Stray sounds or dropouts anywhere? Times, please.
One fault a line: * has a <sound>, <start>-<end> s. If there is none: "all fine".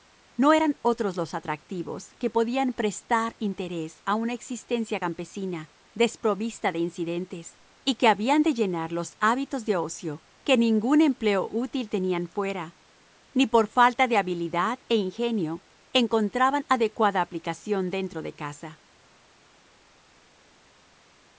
all fine